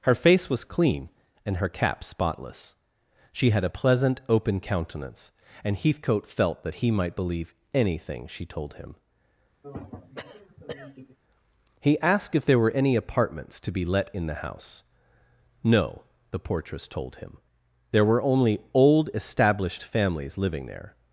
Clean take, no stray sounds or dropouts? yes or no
no